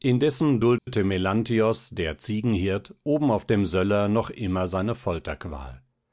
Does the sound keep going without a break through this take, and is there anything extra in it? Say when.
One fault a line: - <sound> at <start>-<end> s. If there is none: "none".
- dropout at 0.8-0.9 s